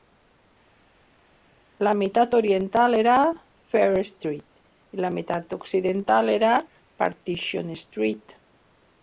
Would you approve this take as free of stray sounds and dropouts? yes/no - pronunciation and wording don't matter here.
yes